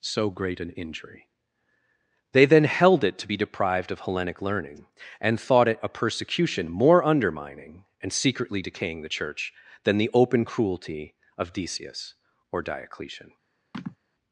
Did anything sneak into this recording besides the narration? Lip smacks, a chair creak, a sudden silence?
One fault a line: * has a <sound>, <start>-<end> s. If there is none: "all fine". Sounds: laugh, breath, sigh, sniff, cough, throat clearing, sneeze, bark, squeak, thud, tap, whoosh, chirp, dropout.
* has a sigh, 13.7-14.0 s